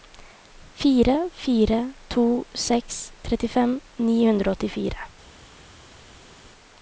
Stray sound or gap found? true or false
false